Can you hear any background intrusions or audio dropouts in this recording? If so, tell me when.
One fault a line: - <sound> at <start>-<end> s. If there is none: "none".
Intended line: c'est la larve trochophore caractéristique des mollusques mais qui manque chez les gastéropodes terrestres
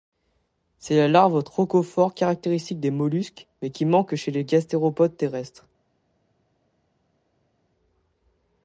none